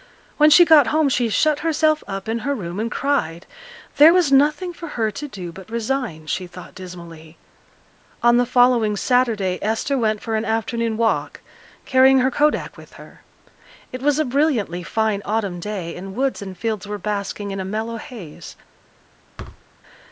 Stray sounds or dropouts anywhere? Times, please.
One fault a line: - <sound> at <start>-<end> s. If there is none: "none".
- thud at 19.4-19.6 s